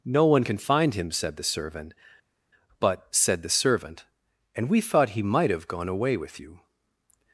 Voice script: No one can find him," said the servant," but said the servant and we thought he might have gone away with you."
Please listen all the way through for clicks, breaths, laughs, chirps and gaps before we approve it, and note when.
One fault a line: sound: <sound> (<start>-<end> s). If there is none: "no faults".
no faults